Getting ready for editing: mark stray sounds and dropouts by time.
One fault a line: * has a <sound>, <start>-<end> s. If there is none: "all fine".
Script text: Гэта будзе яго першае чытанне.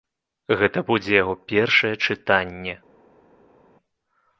all fine